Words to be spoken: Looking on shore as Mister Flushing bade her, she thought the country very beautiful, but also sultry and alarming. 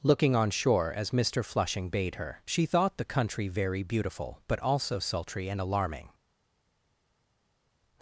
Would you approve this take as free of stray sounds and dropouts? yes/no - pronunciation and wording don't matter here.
yes